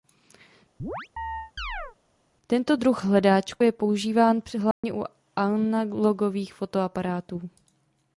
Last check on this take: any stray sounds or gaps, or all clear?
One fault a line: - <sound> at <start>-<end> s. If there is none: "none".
- chirp at 0.8-2.0 s
- dropout at 4.7-4.8 s